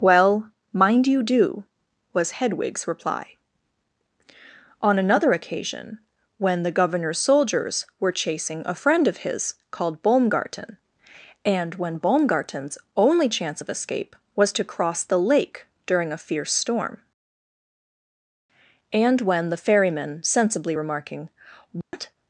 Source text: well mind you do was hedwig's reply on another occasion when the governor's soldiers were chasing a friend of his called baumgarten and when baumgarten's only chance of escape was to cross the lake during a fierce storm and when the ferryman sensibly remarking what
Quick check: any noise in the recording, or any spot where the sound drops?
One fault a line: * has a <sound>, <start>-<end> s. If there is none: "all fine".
* has a dropout, 21.8-21.9 s